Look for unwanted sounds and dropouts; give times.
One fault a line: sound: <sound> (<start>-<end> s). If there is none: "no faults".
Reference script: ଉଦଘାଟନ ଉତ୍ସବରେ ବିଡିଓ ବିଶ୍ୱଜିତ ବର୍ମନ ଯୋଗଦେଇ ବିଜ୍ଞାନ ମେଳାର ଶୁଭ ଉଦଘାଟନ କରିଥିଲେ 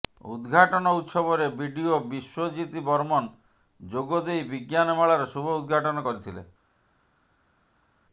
no faults